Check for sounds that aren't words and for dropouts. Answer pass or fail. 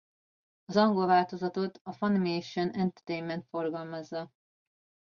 pass